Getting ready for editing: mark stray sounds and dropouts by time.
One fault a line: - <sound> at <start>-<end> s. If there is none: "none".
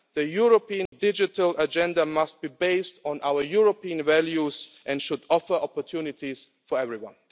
- dropout at 0.9-0.9 s